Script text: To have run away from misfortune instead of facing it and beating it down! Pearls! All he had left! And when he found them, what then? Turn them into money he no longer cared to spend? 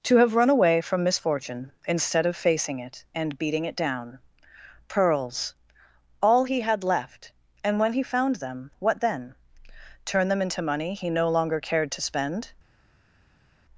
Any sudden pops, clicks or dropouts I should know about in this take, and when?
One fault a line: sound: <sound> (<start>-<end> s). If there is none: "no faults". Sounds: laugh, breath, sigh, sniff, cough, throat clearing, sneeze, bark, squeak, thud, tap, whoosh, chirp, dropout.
no faults